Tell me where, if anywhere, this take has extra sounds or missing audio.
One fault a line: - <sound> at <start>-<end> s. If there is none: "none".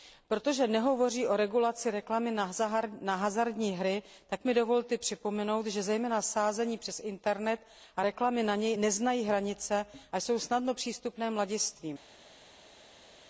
none